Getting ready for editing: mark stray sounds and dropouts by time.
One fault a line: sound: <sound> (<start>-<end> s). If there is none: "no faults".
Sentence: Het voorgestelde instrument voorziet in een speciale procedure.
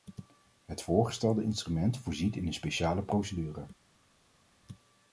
no faults